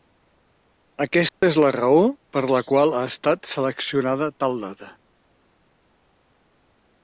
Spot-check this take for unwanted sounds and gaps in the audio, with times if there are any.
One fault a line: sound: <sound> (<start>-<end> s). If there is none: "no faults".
sound: dropout (1.3-1.4 s)